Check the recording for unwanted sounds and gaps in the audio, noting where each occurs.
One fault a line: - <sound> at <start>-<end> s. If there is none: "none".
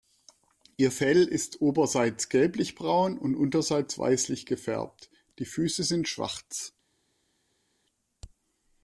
none